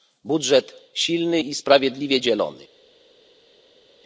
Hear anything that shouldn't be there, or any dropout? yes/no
no